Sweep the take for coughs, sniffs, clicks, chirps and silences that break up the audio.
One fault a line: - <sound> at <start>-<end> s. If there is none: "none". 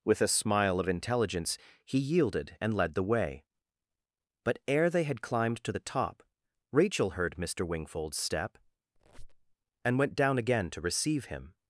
- squeak at 9.0-9.6 s